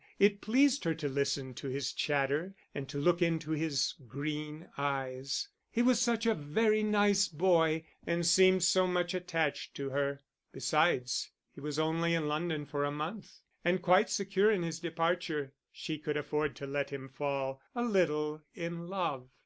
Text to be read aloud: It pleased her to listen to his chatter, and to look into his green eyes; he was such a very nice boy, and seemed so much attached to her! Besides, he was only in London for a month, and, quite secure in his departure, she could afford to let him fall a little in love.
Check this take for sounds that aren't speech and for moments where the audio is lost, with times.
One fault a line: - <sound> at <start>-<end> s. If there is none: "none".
none